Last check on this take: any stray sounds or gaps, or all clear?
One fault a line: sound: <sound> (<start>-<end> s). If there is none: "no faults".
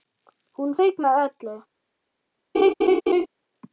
sound: laugh (2.5-3.3 s)